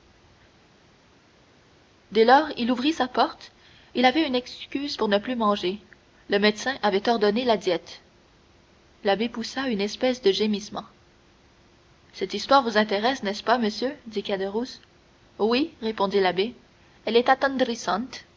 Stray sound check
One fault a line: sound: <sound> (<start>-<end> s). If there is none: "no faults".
no faults